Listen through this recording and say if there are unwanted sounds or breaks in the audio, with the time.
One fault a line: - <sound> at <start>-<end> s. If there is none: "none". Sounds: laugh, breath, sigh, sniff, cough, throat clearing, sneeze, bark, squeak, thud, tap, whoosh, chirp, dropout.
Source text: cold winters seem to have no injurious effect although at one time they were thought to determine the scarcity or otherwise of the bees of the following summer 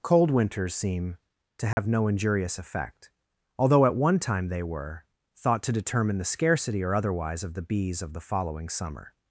- dropout at 1.7-1.8 s